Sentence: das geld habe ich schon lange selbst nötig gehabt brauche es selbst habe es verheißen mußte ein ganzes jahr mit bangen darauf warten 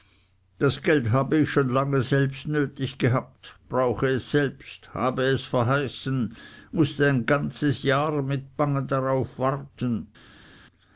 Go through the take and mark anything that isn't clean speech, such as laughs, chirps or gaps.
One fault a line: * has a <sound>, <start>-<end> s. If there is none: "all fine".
all fine